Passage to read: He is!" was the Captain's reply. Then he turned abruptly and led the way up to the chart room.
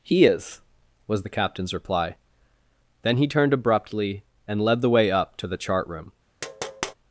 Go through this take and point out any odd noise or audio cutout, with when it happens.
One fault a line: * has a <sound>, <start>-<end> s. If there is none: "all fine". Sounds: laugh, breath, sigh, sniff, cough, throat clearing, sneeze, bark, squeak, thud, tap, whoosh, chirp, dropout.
* has a tap, 6.4-6.9 s